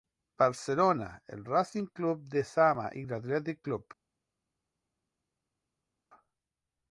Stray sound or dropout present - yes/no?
no